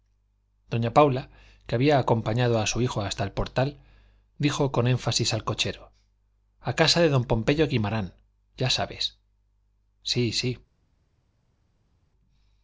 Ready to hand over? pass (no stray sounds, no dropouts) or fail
pass